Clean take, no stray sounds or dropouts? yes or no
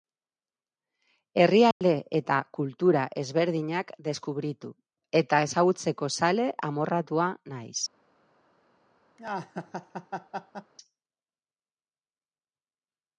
no